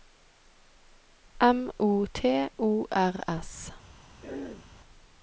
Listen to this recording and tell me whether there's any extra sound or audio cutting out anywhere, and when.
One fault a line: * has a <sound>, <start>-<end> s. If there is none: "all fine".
* has a throat clearing, 4.2-4.7 s